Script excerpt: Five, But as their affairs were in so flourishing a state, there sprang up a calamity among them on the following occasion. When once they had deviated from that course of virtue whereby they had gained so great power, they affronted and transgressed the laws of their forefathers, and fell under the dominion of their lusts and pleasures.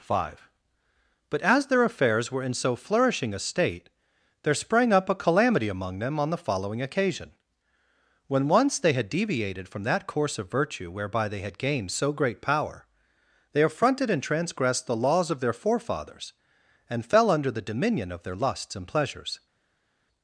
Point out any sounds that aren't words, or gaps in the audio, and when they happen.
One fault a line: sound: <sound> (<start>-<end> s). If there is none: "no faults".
no faults